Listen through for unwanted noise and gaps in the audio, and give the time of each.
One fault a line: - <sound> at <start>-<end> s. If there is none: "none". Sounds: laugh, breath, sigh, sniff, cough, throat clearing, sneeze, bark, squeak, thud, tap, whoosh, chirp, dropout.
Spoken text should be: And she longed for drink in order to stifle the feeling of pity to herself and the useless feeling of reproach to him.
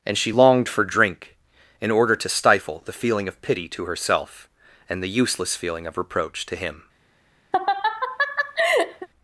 - laugh at 7.5-9.1 s